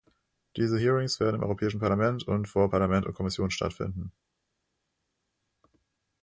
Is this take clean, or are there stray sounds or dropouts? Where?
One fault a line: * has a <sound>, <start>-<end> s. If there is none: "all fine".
all fine